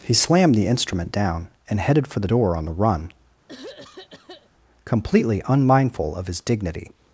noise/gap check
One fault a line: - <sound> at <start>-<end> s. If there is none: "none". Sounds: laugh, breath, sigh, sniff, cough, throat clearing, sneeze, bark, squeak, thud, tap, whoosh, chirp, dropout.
- throat clearing at 3.5-4.5 s